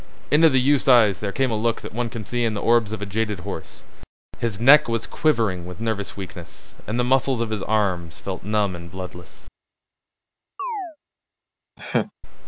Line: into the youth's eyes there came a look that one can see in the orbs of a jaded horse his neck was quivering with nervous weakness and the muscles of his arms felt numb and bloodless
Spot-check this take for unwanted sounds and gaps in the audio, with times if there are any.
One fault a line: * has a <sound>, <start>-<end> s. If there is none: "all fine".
* has a chirp, 10.6-11.0 s
* has a laugh, 11.8-12.1 s